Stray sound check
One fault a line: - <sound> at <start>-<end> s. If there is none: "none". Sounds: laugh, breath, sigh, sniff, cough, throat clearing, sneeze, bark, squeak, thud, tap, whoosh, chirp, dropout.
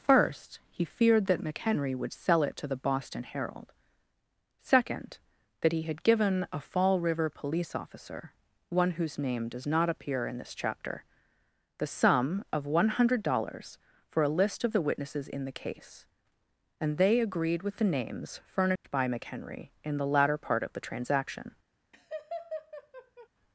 - dropout at 18.8-18.8 s
- laugh at 21.9-23.3 s